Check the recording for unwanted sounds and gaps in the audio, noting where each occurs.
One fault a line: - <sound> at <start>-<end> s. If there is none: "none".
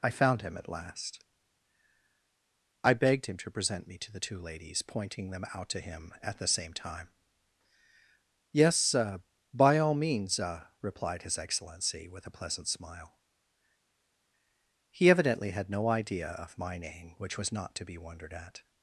none